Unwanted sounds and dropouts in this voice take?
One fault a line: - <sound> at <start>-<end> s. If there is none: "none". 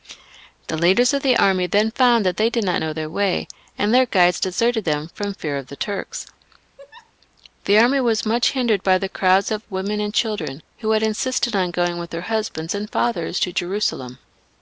- laugh at 6.8-7.1 s